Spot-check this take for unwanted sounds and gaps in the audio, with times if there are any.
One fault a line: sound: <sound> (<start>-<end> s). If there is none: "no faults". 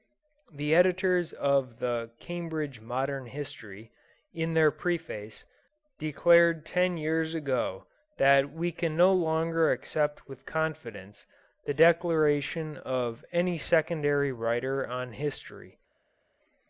no faults